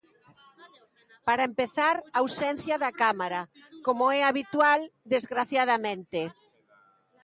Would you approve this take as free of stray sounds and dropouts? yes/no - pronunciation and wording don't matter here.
yes